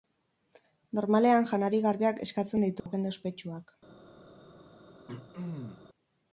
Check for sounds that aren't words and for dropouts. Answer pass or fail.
fail